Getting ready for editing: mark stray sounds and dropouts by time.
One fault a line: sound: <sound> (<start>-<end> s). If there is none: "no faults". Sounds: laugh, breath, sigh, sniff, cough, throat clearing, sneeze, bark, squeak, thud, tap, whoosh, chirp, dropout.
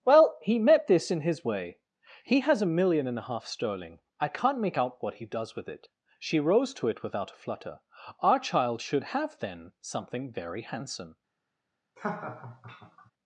sound: laugh (12.0-13.1 s)